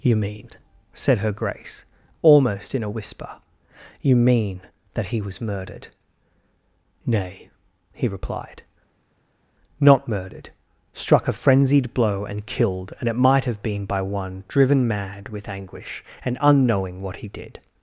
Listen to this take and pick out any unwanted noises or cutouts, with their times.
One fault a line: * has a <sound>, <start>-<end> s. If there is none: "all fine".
all fine